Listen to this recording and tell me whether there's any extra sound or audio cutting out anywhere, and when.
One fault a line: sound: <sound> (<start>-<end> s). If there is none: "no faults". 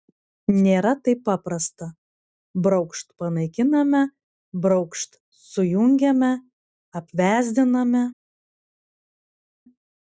no faults